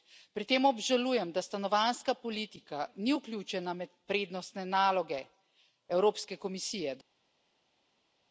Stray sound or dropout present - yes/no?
no